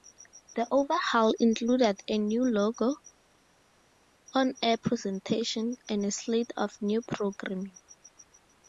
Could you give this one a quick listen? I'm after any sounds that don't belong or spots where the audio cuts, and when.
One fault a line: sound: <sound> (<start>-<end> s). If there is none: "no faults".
no faults